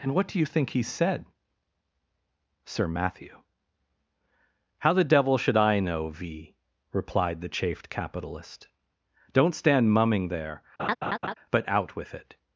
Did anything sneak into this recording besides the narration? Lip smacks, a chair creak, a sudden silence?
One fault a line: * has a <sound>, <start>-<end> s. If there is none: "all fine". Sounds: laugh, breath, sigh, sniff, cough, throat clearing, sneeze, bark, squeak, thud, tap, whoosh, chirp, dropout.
* has a laugh, 10.8-11.3 s